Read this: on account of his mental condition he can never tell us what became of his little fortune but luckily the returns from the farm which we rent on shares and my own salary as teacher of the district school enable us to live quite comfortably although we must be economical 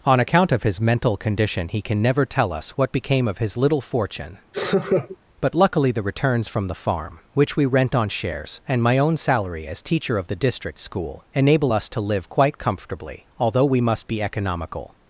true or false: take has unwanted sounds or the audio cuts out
true